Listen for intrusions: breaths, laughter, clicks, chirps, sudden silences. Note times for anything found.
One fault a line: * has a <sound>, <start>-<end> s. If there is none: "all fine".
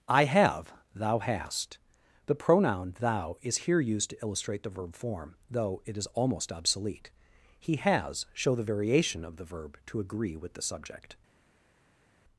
all fine